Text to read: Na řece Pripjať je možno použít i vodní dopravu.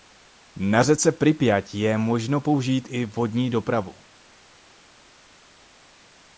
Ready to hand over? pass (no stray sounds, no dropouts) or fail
pass